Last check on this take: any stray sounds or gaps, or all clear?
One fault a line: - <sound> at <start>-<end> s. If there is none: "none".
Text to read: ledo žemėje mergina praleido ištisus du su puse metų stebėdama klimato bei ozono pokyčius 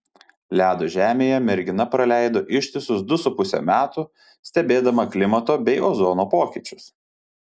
none